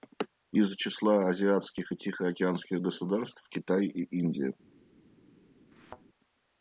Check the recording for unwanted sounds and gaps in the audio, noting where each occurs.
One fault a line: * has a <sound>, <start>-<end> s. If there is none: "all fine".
* has a thud, 5.7-6.0 s